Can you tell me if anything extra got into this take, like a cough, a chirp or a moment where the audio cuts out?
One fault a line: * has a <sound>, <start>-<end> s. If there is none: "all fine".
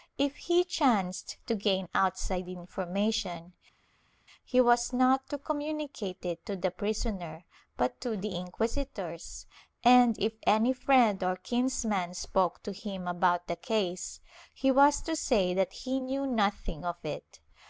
all fine